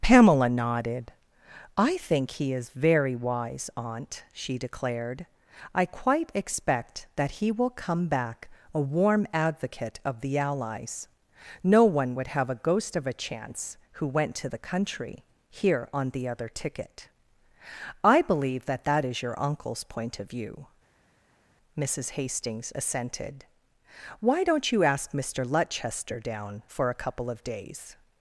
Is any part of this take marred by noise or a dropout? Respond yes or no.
no